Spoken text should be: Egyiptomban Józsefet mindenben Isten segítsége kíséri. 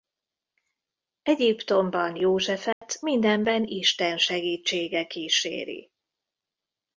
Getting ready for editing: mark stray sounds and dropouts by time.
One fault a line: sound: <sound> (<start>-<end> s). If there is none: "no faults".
sound: dropout (2.7-2.8 s)